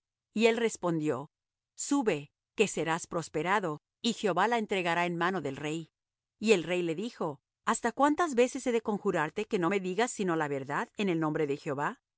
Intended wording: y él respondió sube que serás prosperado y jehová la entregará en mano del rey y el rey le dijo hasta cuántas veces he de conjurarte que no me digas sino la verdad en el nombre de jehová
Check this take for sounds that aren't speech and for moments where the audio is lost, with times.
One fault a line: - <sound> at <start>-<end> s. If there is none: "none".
none